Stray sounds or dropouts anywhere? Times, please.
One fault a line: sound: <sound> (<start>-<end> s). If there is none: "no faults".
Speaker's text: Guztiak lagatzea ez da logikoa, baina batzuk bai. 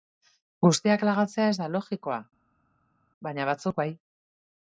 no faults